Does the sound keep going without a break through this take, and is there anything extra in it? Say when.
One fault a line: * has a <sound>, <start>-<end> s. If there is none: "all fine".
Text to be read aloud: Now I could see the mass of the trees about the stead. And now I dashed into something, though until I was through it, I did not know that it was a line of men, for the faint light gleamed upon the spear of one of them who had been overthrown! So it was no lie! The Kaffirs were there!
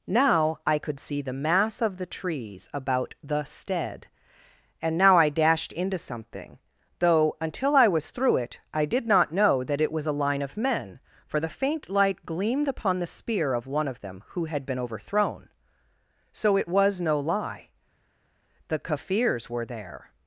all fine